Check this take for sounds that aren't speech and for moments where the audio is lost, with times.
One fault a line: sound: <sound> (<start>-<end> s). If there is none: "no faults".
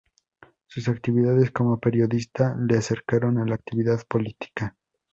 no faults